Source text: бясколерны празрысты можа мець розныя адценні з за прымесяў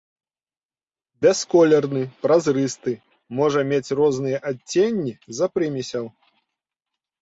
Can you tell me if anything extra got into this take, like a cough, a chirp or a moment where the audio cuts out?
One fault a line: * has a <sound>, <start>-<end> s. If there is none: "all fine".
all fine